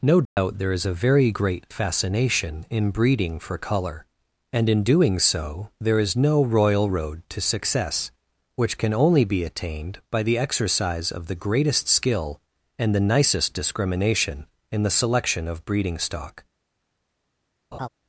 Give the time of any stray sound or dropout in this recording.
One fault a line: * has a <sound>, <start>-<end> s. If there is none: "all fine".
* has a dropout, 0.3-0.4 s
* has a laugh, 17.7-17.9 s